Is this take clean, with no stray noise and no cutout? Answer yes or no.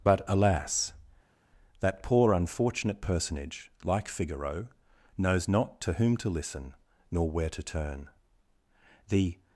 yes